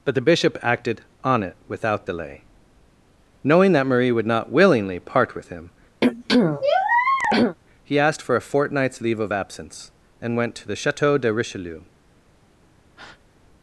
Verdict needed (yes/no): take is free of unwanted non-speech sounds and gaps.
no